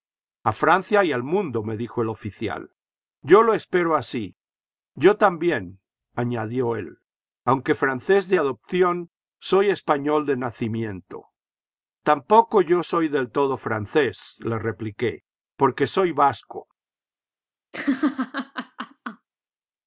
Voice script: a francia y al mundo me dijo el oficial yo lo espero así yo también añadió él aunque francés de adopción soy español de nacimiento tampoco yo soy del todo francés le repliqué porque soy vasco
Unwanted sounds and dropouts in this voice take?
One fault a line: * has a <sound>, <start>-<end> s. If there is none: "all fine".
* has a laugh, 17.7-19.3 s